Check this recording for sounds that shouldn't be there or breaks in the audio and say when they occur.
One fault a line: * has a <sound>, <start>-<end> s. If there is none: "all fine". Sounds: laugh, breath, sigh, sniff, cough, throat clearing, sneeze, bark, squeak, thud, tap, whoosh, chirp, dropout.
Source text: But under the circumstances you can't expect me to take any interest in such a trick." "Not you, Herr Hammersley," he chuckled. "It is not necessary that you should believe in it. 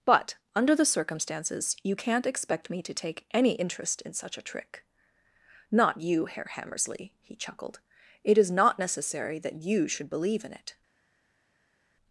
all fine